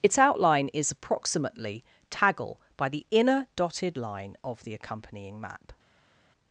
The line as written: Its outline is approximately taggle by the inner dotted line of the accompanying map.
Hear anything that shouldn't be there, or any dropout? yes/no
no